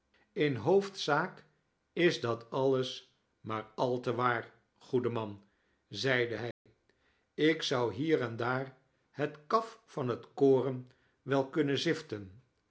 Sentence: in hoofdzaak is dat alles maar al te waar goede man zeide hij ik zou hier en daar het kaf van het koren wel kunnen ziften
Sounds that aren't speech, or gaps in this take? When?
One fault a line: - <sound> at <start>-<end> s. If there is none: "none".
- dropout at 6.5-6.7 s